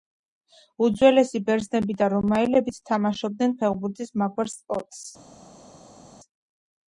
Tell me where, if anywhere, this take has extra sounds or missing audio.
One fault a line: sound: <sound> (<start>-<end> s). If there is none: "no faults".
no faults